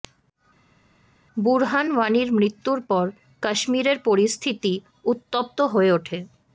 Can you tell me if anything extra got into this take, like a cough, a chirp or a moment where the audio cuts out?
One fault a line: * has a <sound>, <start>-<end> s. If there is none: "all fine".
all fine